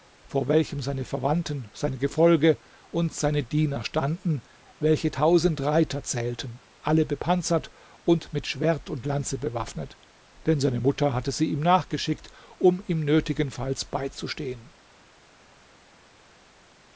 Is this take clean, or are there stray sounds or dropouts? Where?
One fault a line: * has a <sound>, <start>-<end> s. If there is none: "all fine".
all fine